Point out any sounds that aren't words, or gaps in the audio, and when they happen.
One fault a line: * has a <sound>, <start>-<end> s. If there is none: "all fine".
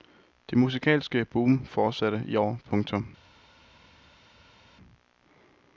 all fine